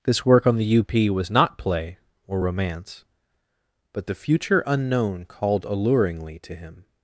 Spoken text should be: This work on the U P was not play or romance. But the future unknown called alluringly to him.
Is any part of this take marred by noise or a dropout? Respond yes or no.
no